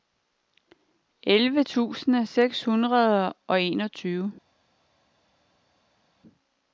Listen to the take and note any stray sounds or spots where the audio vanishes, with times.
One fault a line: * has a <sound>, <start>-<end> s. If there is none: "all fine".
all fine